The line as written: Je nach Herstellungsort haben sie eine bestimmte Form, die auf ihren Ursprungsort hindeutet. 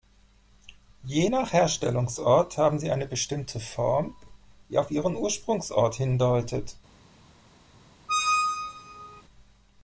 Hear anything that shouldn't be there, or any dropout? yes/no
yes